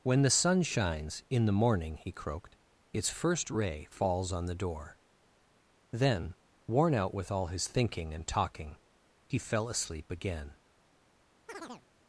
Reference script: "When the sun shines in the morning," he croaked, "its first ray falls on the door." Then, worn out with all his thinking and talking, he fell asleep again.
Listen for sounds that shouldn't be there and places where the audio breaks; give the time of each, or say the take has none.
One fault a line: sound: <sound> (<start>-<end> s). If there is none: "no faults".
sound: chirp (11.5-11.9 s)